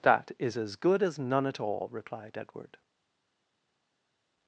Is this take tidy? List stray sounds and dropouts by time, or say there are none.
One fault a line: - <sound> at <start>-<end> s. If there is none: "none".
none